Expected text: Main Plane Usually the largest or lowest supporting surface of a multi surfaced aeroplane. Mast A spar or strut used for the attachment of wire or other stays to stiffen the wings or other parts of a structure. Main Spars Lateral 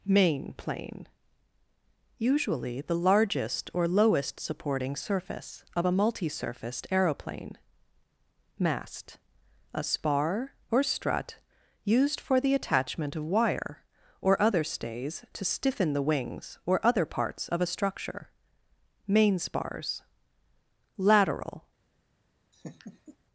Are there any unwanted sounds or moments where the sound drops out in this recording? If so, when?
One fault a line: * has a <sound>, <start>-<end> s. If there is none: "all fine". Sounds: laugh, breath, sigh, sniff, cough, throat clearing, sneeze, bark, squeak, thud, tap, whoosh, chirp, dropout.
* has a laugh, 22.5-23.2 s